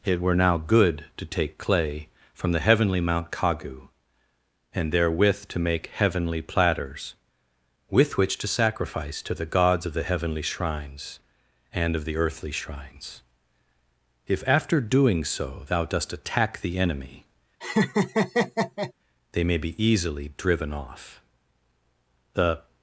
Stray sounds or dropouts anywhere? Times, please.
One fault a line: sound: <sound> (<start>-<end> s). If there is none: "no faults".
sound: laugh (17.6-18.9 s)